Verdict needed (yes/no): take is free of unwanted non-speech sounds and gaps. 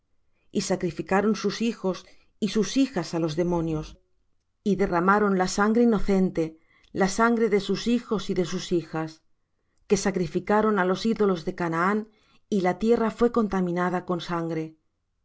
yes